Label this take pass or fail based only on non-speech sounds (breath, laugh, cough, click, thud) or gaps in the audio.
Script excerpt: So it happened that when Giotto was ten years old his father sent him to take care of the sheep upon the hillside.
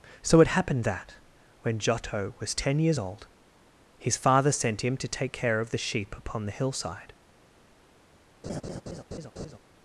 fail